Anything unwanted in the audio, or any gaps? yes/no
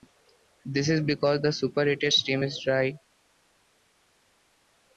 no